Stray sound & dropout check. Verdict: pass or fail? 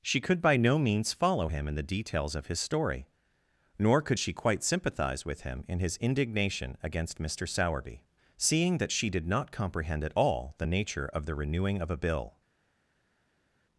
pass